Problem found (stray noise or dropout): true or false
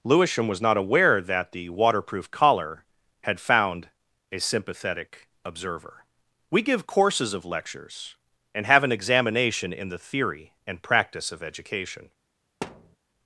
true